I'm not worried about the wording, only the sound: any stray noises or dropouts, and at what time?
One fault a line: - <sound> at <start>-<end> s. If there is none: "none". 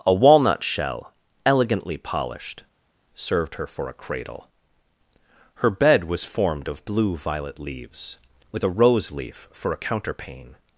none